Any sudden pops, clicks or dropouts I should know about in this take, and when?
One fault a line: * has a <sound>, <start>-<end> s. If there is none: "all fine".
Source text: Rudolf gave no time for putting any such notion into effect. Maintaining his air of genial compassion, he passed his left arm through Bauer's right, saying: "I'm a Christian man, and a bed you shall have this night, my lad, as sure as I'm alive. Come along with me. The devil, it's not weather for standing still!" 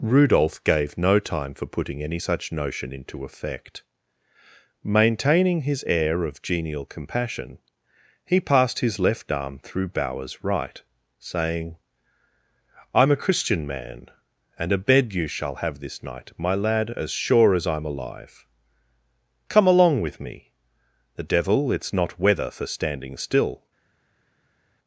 all fine